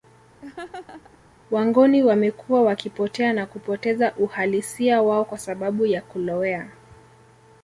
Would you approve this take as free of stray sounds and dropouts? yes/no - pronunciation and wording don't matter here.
no